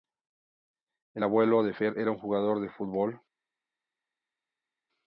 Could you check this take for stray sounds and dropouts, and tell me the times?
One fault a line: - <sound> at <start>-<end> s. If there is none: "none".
none